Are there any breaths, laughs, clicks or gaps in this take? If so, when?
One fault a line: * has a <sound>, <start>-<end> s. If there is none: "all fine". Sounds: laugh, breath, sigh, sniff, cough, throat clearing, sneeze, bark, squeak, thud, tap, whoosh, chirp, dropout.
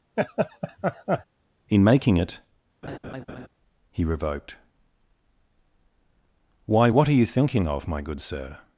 * has a laugh, 0.2-1.3 s
* has a laugh, 2.8-3.5 s